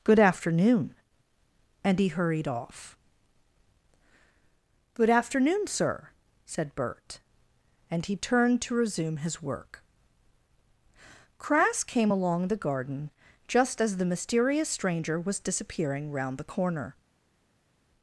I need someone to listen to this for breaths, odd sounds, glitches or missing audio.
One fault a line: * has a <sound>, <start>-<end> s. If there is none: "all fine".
all fine